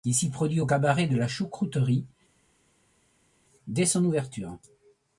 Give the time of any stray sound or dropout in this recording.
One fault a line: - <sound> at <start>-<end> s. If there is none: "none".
none